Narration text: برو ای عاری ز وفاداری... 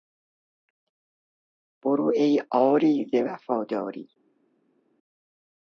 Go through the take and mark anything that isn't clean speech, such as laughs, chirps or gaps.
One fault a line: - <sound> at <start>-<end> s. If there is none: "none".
none